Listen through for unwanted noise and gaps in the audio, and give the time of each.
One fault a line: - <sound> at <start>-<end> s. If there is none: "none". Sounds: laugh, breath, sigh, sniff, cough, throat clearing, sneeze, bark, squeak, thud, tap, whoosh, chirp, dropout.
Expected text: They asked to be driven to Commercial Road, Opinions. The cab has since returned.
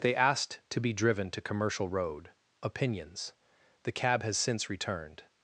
none